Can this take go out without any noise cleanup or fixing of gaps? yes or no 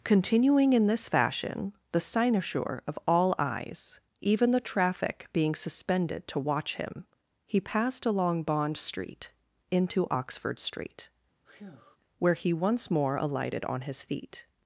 no